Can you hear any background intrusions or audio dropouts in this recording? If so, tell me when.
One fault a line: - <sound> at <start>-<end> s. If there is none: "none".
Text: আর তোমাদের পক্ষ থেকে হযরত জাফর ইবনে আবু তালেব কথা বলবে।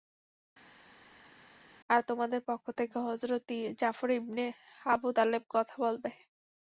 none